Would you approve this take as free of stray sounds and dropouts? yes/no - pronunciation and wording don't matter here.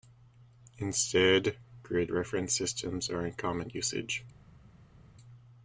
yes